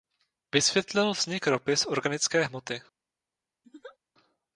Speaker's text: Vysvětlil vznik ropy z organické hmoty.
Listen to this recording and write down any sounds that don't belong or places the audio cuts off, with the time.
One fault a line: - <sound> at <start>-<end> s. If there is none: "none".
- laugh at 3.6-4.0 s